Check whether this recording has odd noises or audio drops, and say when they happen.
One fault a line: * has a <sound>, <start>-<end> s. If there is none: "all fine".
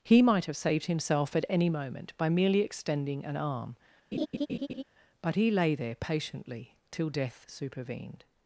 * has a laugh, 4.1-4.8 s